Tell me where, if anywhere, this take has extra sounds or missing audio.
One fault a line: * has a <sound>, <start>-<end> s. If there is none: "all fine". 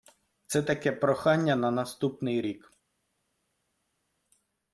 all fine